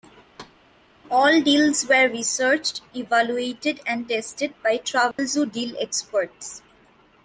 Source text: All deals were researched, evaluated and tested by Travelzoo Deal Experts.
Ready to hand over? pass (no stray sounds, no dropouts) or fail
fail